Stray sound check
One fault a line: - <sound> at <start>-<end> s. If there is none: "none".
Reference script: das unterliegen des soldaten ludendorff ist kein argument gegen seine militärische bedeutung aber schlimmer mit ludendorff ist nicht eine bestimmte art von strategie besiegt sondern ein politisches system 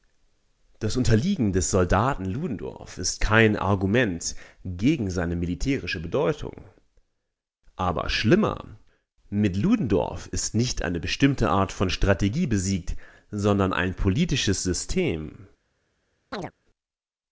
- chirp at 16.3-16.5 s